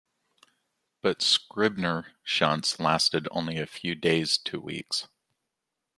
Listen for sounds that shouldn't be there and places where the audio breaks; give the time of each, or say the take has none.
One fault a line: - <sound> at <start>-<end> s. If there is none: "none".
none